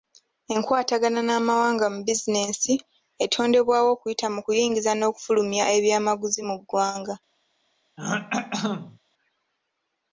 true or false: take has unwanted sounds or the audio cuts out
true